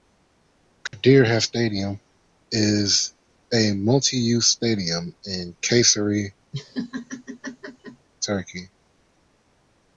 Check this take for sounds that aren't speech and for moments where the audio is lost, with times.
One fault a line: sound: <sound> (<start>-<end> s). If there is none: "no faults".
sound: dropout (0.9-0.9 s)
sound: laugh (6.5-8.1 s)